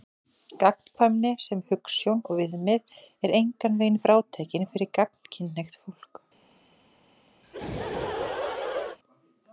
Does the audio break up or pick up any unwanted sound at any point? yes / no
yes